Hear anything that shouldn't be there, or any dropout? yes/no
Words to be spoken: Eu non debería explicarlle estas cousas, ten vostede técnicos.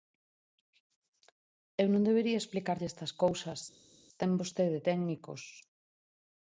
no